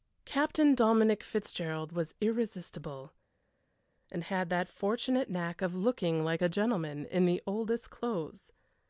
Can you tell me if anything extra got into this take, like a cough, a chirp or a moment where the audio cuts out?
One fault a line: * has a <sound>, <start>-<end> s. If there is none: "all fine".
all fine